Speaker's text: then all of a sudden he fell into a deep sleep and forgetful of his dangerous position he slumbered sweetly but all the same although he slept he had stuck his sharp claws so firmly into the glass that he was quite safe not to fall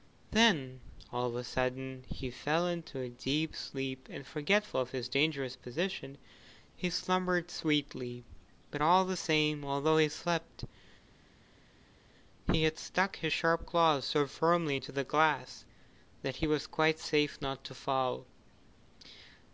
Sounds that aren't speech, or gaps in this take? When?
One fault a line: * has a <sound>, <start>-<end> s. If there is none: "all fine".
all fine